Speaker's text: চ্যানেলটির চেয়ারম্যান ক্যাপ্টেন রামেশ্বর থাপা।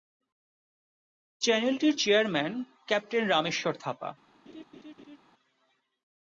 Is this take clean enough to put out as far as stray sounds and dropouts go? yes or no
no